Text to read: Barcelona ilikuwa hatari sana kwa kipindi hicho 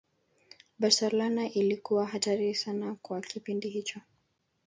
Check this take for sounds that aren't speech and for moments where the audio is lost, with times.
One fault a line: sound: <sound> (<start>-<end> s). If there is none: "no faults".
no faults